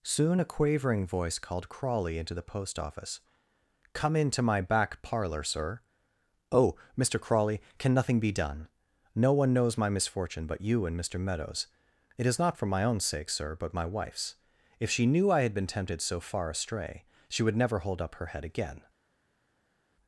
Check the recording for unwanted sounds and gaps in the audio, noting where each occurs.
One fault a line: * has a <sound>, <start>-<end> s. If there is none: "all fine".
all fine